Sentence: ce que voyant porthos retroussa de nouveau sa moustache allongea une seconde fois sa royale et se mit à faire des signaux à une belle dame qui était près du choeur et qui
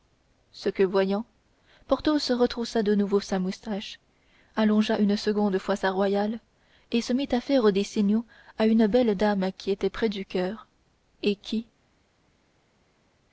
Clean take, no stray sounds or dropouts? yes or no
yes